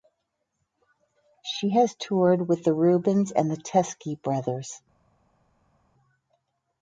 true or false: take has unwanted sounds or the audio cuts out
false